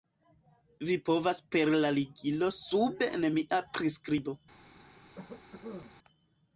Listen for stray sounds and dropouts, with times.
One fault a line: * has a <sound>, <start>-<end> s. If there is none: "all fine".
* has a cough, 5.1-6.0 s